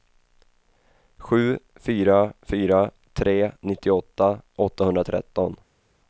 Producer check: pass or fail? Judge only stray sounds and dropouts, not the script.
pass